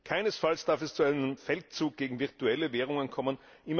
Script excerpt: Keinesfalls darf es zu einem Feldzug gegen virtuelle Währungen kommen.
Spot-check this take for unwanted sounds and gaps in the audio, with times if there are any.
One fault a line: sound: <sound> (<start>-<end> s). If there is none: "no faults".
no faults